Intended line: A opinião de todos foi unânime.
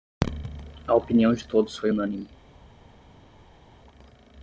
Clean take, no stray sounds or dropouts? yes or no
yes